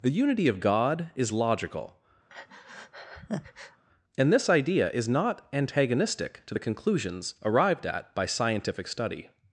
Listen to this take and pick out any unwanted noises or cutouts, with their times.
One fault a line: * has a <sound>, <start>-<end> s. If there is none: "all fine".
* has a breath, 2.3-3.8 s